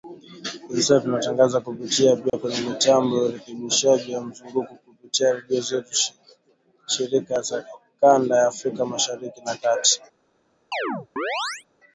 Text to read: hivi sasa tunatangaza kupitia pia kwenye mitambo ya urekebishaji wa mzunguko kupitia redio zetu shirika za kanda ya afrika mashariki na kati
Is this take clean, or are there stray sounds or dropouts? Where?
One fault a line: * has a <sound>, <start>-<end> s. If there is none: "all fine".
* has a dropout, 2.3-2.3 s
* has a chirp, 10.7-11.6 s